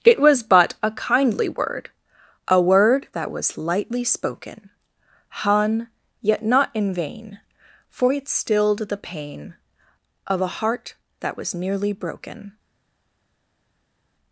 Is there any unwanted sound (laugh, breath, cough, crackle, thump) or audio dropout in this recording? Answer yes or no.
no